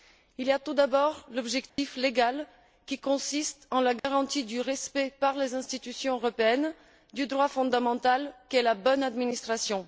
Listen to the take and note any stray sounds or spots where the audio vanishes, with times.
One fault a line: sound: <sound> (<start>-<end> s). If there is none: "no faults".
sound: dropout (1.7-1.8 s)
sound: dropout (4.0-4.0 s)